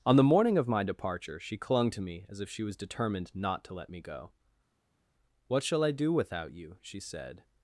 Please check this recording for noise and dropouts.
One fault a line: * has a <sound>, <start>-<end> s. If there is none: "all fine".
all fine